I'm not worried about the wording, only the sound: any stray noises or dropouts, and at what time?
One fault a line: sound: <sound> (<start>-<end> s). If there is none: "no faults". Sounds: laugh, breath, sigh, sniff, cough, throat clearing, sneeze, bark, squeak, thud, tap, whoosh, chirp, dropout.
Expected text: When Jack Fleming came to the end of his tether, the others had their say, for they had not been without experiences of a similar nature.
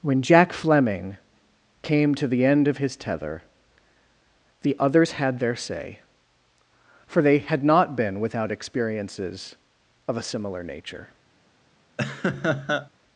sound: laugh (12.0-12.9 s)